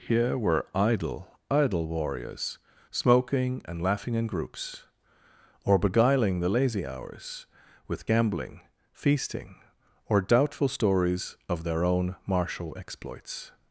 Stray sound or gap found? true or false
false